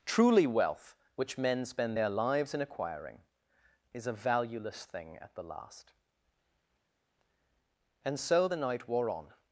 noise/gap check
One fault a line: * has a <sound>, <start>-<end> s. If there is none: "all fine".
all fine